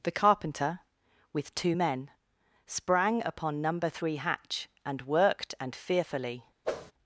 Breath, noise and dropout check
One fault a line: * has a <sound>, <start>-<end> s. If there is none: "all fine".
* has a whoosh, 6.6-6.9 s